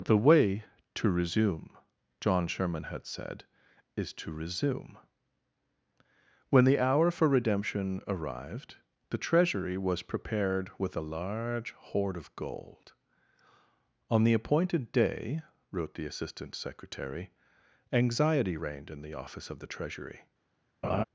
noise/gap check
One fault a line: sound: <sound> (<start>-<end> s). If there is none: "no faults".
sound: laugh (20.8-21.0 s)